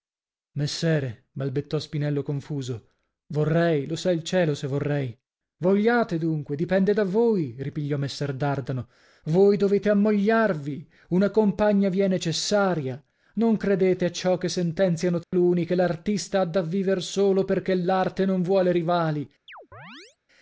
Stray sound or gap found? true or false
true